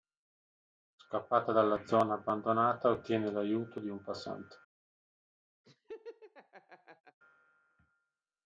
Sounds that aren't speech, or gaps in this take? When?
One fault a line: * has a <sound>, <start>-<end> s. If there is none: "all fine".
* has a laugh, 5.6-7.2 s